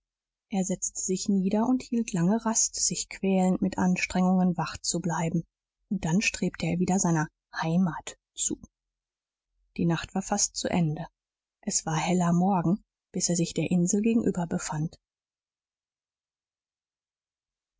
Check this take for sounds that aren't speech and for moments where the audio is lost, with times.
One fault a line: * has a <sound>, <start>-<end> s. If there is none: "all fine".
all fine